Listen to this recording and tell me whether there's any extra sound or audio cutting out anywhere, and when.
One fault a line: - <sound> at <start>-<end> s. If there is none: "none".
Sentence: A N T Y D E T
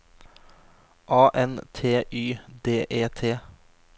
none